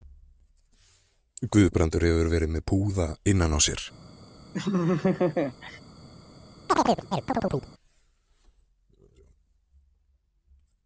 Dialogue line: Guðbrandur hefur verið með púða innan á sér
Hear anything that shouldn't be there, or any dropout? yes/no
yes